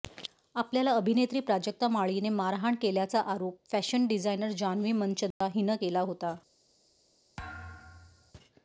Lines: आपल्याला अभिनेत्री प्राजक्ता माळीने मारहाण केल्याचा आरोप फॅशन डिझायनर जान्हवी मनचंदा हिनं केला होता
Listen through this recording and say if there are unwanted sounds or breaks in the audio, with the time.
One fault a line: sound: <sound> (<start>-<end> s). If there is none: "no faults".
sound: dropout (5.3-5.4 s)
sound: thud (7.4-8.3 s)